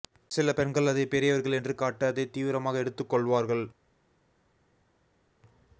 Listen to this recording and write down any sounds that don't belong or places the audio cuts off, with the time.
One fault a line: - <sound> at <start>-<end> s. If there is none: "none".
none